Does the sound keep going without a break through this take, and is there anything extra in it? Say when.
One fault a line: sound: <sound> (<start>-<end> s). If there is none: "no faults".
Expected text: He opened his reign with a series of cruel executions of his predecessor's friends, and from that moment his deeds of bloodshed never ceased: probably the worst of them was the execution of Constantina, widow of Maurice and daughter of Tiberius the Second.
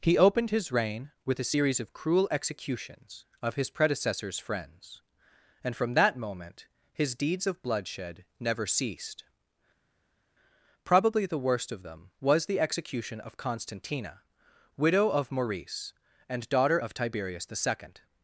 no faults